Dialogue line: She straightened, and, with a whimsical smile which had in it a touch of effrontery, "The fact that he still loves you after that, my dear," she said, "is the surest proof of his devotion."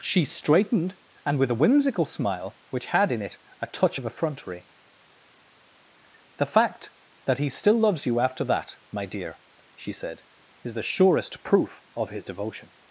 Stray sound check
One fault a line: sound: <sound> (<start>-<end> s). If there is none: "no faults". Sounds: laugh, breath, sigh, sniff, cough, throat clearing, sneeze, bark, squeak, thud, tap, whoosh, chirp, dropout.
no faults